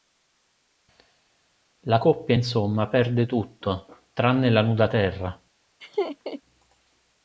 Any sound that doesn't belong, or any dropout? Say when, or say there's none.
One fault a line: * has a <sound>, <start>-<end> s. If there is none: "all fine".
* has a laugh, 5.8-6.4 s